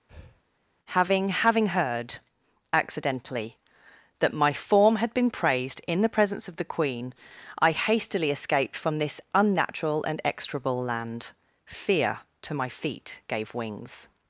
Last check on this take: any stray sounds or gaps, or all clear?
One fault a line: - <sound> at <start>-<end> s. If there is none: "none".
- breath at 0.1-0.4 s